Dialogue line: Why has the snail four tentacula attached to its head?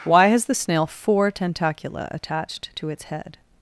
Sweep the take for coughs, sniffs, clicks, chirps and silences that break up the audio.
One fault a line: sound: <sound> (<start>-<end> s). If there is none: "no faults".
no faults